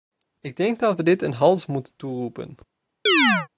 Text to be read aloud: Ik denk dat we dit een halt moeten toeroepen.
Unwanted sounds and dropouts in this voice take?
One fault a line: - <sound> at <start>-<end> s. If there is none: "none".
- chirp at 3.1-3.5 s